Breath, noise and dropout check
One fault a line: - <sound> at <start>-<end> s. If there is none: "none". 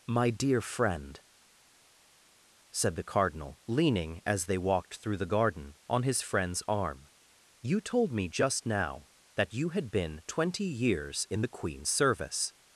none